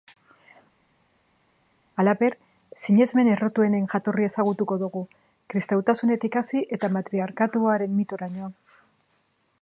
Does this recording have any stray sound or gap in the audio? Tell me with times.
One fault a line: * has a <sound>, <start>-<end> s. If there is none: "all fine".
all fine